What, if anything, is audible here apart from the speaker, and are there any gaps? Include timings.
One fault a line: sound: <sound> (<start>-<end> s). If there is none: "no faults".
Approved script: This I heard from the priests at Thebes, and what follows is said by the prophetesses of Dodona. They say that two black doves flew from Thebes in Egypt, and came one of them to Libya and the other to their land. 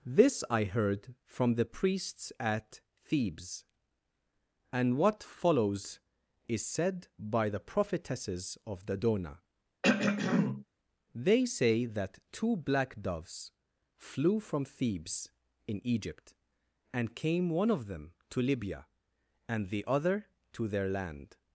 sound: throat clearing (9.8-10.7 s)